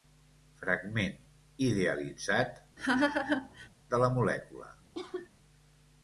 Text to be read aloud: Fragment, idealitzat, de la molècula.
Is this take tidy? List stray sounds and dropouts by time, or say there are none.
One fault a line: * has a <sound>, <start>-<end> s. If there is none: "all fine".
* has a laugh, 2.8-3.7 s
* has a cough, 4.9-5.3 s